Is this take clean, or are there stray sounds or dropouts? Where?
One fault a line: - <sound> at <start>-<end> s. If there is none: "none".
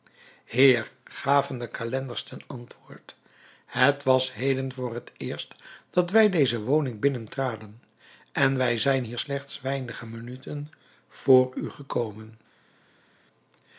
none